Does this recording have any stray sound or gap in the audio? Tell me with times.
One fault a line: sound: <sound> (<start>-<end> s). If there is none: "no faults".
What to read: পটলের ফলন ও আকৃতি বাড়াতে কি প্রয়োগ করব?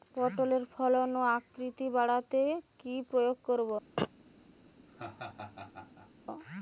sound: throat clearing (4.0-4.1 s)
sound: laugh (4.9-6.1 s)